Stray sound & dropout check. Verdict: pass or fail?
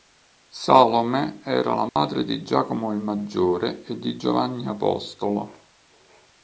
fail